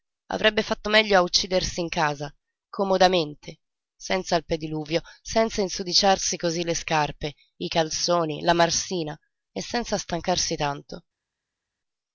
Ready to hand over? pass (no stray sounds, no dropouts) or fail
pass